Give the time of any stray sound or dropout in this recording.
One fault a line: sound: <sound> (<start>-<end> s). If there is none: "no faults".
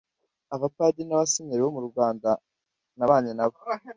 no faults